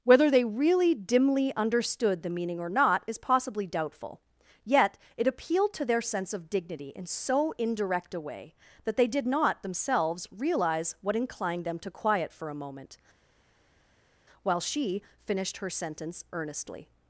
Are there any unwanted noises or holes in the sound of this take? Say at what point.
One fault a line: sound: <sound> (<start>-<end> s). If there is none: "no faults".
no faults